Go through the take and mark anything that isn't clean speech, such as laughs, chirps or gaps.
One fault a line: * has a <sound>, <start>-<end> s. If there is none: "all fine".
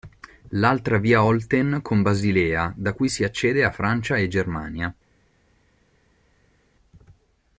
all fine